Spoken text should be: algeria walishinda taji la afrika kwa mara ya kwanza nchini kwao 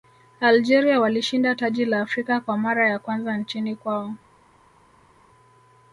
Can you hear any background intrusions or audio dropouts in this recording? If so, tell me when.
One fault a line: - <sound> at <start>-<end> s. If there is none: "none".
none